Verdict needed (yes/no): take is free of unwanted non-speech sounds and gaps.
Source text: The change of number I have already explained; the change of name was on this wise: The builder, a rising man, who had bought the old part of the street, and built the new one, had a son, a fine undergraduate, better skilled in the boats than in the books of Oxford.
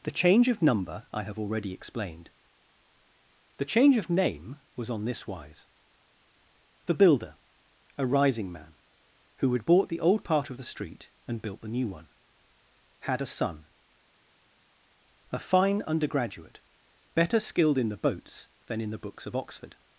yes